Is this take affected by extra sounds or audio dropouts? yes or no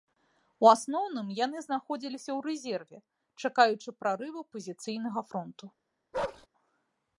yes